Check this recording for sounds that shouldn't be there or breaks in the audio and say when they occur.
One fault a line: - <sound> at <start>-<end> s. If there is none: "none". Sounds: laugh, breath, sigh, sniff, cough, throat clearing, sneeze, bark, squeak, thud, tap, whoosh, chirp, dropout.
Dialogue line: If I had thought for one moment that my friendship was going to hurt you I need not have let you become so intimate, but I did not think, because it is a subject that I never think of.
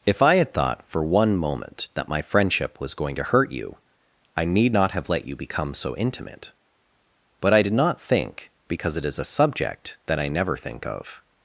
none